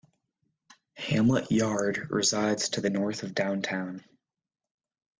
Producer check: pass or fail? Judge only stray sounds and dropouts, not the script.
pass